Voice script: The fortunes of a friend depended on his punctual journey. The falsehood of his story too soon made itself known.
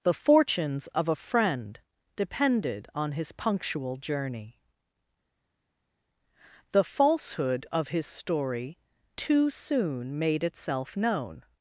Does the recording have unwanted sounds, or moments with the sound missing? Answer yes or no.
no